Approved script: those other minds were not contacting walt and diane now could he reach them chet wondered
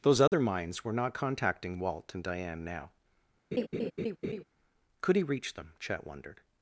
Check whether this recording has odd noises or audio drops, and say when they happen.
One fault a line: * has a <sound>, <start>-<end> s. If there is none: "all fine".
* has a dropout, 0.3-0.3 s
* has a laugh, 3.5-4.4 s